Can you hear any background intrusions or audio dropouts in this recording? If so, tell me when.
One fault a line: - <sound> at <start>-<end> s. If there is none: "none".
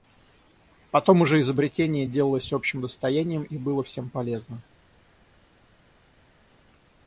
none